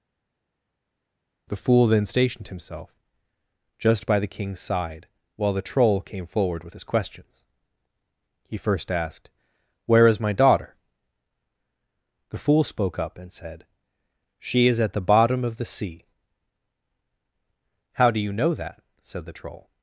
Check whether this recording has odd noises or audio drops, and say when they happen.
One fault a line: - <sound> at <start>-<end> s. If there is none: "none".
none